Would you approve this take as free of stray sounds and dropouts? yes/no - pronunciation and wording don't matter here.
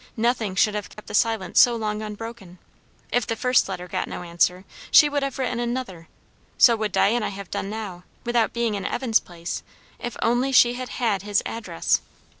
no